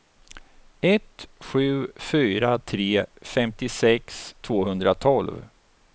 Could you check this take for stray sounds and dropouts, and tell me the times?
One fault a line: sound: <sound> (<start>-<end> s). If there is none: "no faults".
no faults